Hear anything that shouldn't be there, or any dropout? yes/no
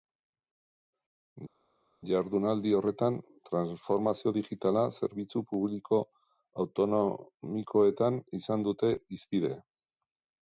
no